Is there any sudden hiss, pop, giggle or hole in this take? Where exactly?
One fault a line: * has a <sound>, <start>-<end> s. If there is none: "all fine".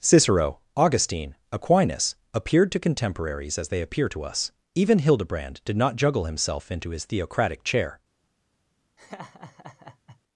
* has a laugh, 9.0-10.2 s